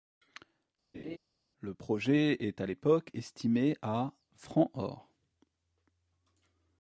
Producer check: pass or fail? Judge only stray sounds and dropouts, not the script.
fail